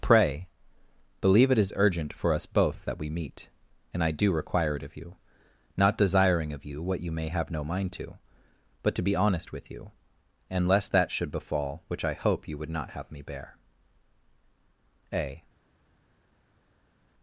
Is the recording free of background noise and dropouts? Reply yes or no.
yes